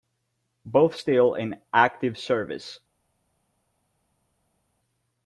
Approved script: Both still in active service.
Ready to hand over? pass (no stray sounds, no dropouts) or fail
pass